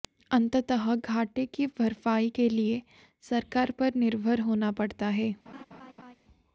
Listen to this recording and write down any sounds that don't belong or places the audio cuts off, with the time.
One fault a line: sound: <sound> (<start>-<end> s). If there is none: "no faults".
sound: laugh (5.5-6.2 s)